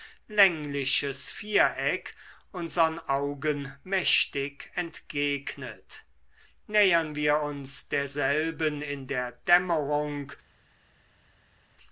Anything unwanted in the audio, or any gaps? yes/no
no